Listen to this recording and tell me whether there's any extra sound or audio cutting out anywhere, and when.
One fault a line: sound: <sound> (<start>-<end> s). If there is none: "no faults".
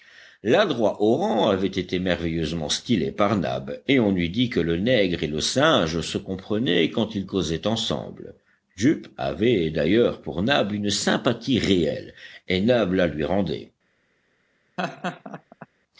sound: laugh (14.8-15.7 s)